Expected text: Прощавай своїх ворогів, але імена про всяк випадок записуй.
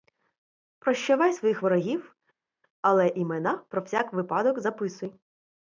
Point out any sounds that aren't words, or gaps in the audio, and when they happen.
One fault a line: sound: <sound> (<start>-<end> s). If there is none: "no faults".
no faults